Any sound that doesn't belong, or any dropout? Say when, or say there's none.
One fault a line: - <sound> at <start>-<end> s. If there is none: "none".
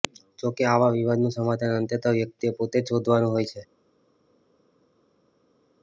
none